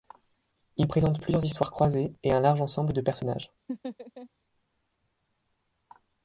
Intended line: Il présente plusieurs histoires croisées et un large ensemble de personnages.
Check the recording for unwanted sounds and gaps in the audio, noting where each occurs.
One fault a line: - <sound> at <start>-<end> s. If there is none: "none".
- laugh at 3.7-4.3 s